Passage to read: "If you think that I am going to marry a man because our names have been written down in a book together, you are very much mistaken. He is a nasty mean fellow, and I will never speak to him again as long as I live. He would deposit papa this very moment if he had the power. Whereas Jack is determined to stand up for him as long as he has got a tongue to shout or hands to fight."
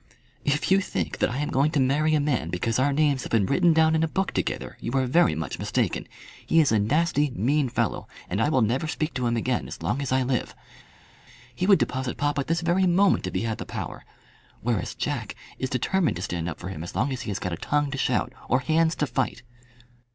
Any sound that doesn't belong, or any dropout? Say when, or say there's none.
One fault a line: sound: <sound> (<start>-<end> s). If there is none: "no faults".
no faults